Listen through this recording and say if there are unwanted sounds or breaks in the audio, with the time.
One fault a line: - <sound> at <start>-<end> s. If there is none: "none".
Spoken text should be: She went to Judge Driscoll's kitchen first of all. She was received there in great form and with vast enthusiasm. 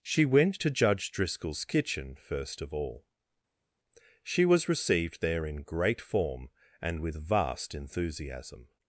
none